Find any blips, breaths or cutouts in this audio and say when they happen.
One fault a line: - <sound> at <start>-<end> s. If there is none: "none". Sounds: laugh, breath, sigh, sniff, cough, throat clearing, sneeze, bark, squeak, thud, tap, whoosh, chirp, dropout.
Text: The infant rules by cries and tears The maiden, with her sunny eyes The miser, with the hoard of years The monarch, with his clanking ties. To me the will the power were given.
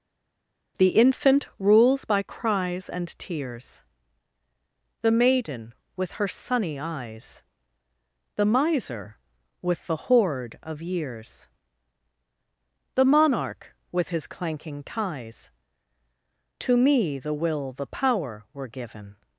none